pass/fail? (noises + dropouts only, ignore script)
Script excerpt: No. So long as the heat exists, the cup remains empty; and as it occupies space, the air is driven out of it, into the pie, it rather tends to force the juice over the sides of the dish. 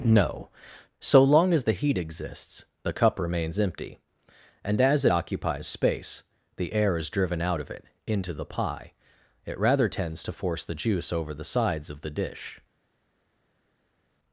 pass